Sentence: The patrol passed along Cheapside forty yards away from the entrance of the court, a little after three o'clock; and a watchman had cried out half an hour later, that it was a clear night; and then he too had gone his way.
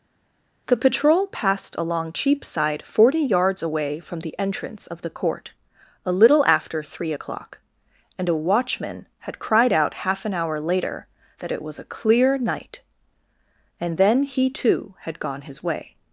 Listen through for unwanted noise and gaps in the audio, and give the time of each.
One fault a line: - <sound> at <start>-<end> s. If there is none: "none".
none